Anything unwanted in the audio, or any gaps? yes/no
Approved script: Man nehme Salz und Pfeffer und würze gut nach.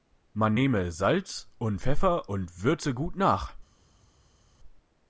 no